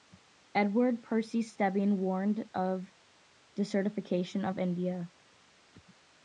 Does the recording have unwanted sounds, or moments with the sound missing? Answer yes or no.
no